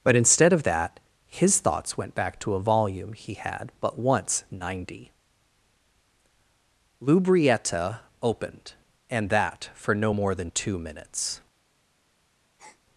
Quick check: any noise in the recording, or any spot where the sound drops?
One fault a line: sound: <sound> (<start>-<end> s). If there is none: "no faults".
sound: breath (12.6-12.8 s)